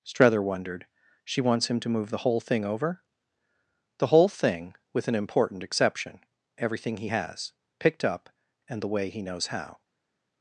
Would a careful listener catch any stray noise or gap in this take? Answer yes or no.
no